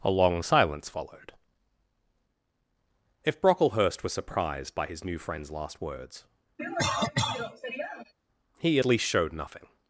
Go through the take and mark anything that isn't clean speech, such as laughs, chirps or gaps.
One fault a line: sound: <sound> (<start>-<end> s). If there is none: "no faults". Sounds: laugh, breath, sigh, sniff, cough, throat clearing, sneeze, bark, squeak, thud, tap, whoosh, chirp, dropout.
sound: cough (6.6-8.1 s)